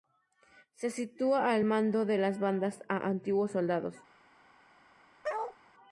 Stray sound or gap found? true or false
true